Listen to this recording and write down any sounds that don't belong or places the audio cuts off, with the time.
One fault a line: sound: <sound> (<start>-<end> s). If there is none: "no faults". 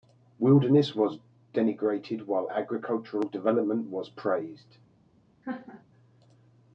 sound: laugh (5.4-5.8 s)